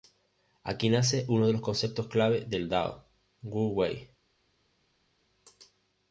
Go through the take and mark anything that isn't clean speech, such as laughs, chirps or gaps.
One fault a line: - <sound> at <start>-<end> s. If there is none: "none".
none